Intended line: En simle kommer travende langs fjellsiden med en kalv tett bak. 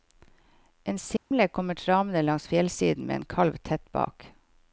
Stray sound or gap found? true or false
true